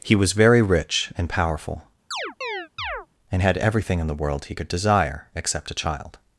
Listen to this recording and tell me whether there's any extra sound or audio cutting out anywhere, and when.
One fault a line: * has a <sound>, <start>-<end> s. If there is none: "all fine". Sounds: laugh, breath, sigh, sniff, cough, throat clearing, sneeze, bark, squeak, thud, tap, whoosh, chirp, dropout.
* has a chirp, 2.1-3.1 s